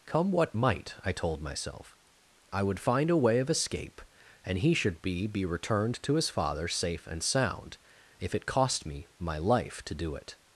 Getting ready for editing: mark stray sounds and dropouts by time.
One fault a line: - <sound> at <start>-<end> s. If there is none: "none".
none